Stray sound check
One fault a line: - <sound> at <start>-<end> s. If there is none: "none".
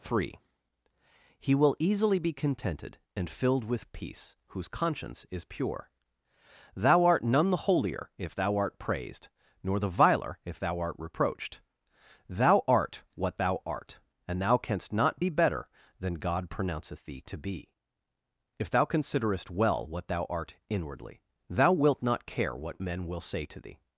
none